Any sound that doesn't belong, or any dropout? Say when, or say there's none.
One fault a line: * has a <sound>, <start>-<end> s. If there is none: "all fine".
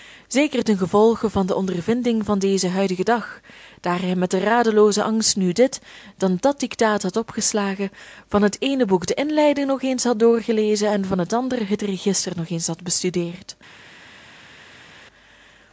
all fine